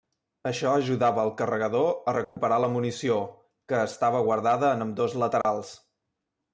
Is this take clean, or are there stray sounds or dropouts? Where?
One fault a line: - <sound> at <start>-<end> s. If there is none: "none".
- dropout at 2.2-2.4 s
- dropout at 5.4-5.4 s